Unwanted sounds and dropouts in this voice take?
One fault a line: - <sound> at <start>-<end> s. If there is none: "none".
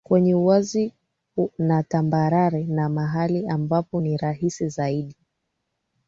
none